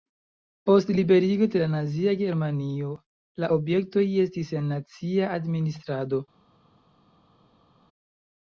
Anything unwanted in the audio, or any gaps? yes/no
no